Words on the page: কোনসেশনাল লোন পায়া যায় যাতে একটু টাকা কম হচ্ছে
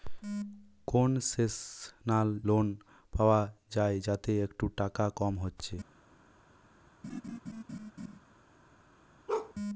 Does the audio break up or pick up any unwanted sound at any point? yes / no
yes